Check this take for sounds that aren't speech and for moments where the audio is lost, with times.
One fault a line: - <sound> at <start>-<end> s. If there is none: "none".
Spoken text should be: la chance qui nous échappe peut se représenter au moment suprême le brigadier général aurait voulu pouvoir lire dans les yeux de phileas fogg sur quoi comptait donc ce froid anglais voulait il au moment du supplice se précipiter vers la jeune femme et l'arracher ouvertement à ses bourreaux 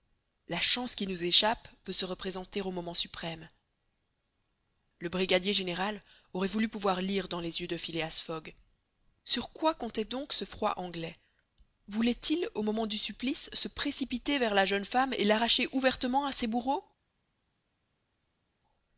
none